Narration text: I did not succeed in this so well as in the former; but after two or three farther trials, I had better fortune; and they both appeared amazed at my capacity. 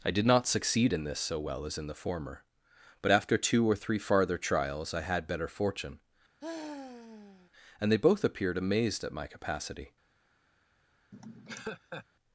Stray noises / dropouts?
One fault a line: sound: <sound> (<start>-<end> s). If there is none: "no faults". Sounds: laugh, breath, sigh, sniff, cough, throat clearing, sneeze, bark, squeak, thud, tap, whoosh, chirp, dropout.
sound: sigh (6.4-7.5 s)
sound: laugh (11.1-12.1 s)